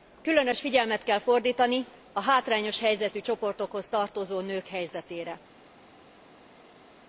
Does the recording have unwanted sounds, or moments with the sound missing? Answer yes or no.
no